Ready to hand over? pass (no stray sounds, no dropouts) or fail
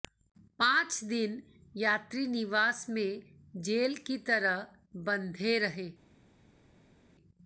pass